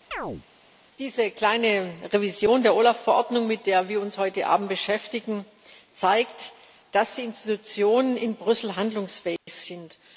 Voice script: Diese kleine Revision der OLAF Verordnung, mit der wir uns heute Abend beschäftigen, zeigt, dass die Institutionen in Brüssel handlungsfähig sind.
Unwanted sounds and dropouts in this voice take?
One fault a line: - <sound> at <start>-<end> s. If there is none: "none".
- chirp at 0.1-0.4 s
- dropout at 9.4-9.5 s